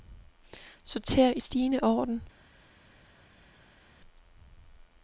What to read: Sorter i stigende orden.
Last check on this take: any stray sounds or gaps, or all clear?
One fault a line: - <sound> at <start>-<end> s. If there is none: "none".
none